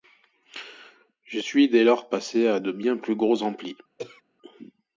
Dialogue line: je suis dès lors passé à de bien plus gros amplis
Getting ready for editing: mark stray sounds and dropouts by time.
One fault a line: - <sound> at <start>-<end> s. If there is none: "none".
- throat clearing at 4.0-4.2 s